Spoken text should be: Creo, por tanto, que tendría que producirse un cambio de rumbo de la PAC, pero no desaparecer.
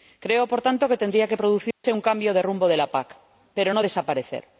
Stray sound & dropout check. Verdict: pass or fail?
fail